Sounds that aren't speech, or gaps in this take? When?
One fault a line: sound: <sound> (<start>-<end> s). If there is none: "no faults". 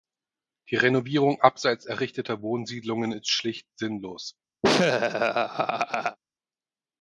sound: laugh (4.6-6.2 s)